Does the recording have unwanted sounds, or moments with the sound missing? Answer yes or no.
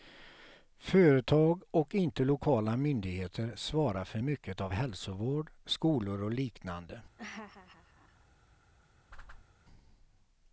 yes